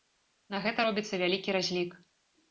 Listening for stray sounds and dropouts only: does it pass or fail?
pass